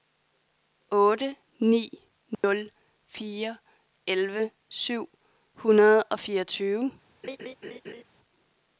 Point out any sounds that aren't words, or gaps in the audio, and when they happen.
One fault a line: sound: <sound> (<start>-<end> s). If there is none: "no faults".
sound: dropout (2.3-2.4 s)
sound: laugh (7.2-8.0 s)